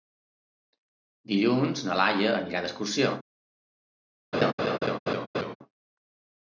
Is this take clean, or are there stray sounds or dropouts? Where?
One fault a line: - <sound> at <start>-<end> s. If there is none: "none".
- laugh at 4.3-5.6 s